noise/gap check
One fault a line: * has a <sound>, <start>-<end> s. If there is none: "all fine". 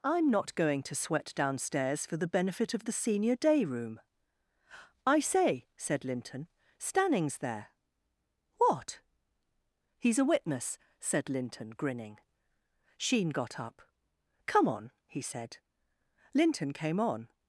all fine